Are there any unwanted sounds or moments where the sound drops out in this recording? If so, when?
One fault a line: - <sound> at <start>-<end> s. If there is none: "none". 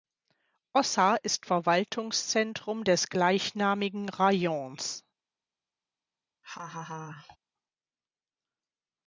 - laugh at 6.4-7.4 s